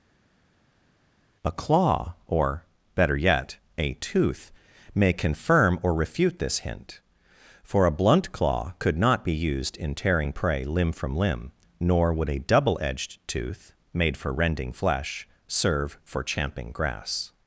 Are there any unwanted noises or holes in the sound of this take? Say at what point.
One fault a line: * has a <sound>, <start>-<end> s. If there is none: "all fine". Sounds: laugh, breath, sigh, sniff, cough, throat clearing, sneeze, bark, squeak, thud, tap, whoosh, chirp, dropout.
all fine